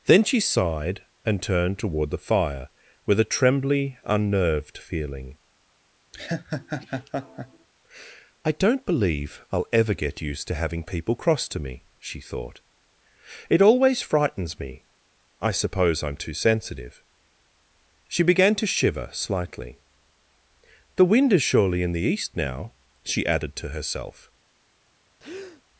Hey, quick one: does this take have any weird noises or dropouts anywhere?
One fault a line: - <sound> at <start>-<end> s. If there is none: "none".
- laugh at 6.1-7.7 s
- breath at 25.2-25.6 s